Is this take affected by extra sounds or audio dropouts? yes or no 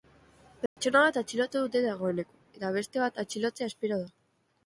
yes